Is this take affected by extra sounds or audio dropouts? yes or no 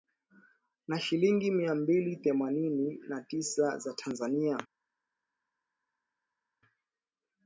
no